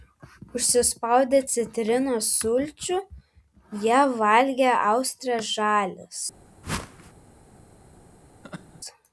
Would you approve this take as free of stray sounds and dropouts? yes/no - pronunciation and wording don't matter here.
no